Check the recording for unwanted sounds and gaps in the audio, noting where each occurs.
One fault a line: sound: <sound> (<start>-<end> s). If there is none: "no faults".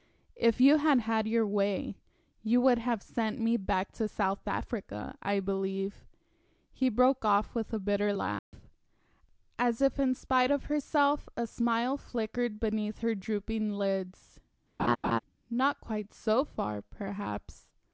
sound: dropout (8.4-8.5 s)
sound: laugh (14.8-15.2 s)